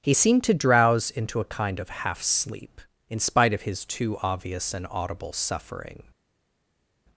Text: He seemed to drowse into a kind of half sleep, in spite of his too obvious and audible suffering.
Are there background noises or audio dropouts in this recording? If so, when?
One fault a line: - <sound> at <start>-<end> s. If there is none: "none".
none